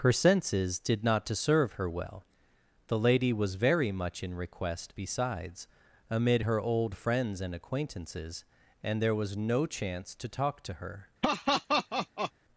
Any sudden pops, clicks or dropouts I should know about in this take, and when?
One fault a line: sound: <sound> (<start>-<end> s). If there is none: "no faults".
sound: laugh (11.2-12.3 s)